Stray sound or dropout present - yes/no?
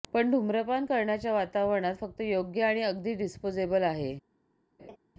yes